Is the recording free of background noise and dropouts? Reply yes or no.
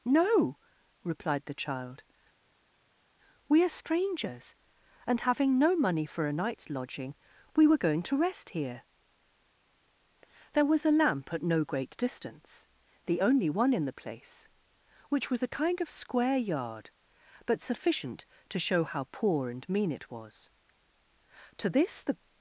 yes